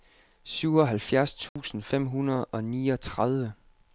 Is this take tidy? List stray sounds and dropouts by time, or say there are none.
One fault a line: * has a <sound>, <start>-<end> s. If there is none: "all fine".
* has a dropout, 1.5-1.6 s